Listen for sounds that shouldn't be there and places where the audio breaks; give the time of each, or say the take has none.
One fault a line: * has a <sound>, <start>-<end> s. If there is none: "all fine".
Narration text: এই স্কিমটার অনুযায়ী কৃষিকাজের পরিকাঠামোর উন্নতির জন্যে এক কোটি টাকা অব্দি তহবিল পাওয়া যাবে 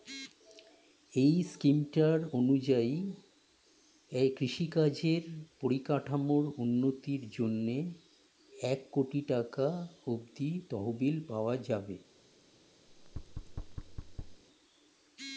* has a thud, 12.9-14.4 s